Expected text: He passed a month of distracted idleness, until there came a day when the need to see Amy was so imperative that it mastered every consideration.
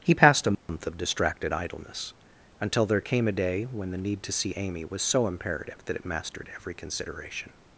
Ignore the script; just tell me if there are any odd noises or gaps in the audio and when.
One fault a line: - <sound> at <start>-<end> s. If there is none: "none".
- dropout at 0.5-0.7 s